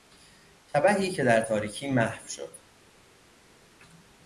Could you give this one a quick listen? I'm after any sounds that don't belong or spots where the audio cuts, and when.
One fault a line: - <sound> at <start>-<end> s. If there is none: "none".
none